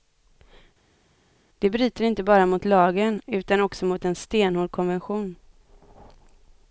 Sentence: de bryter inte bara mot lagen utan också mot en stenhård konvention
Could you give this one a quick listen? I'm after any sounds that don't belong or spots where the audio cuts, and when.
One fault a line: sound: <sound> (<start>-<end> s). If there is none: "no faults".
no faults